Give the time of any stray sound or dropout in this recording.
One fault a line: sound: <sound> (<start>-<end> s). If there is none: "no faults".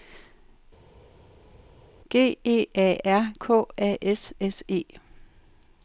no faults